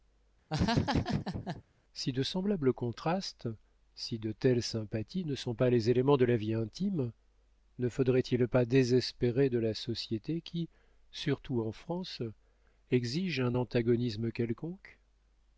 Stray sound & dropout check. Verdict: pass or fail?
fail